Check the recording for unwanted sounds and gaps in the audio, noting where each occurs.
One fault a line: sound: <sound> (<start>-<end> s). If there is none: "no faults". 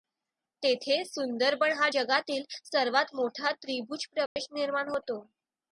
sound: dropout (4.3-4.4 s)